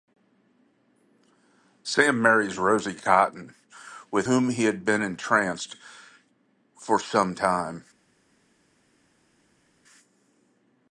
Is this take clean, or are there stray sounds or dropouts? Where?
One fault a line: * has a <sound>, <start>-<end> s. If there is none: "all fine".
all fine